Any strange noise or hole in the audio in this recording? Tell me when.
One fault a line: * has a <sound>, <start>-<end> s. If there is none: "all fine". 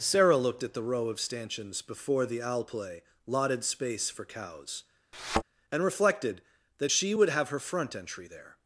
* has a thud, 5.1-5.4 s